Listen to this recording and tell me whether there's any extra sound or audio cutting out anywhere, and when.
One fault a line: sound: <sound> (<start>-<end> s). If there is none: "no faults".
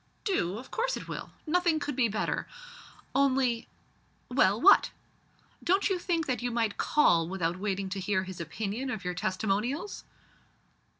no faults